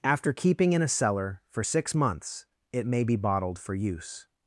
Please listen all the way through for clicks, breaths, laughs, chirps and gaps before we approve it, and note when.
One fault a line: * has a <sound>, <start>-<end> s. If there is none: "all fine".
all fine